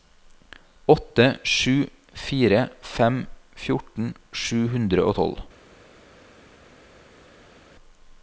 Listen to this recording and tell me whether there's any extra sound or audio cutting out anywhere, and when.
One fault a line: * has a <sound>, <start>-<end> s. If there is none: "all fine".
all fine